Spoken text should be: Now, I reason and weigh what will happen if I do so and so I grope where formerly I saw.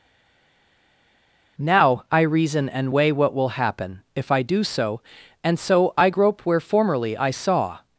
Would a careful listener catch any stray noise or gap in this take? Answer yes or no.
no